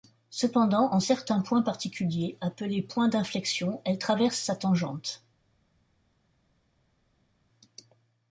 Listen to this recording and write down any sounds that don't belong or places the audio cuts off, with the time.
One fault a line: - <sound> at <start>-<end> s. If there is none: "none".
none